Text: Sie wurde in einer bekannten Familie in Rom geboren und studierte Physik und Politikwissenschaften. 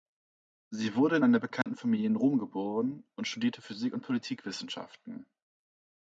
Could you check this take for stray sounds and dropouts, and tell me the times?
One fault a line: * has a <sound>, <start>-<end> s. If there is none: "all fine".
* has a dropout, 1.6-1.7 s